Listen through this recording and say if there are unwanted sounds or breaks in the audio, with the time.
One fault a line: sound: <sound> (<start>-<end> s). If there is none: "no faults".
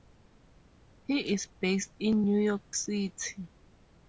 no faults